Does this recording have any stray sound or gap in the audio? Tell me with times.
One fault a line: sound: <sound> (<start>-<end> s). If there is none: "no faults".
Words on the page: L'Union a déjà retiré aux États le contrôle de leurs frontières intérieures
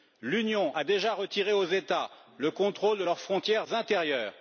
no faults